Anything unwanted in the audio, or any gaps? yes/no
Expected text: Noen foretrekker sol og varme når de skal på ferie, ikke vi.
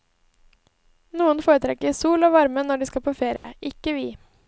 yes